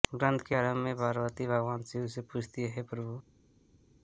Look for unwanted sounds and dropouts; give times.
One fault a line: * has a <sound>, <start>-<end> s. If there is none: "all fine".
all fine